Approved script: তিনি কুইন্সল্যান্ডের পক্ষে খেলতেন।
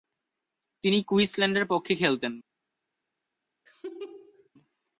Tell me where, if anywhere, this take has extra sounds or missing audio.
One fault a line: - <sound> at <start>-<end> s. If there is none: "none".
- laugh at 3.7-4.5 s